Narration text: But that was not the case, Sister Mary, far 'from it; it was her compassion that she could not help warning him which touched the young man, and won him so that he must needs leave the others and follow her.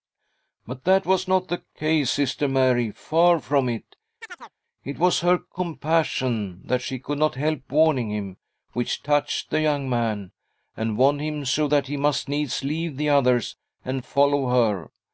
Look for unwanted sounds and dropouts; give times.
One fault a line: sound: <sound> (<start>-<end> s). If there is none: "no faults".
sound: chirp (4.2-4.6 s)